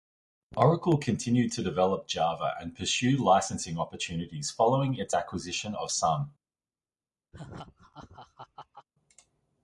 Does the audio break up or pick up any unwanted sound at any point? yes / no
yes